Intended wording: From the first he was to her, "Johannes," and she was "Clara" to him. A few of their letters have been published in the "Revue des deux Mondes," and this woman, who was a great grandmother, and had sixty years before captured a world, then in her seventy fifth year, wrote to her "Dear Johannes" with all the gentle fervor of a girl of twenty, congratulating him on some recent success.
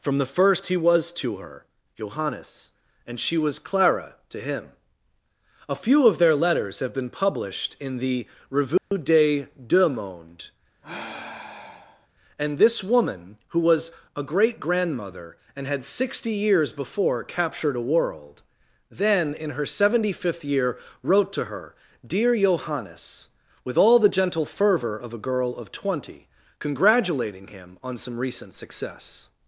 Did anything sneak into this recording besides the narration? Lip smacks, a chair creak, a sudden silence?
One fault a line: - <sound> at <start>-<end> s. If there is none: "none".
- dropout at 8.8-8.9 s
- sigh at 10.8-12.1 s